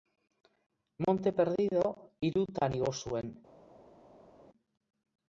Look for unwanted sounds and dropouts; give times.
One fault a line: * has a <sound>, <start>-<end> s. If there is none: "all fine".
all fine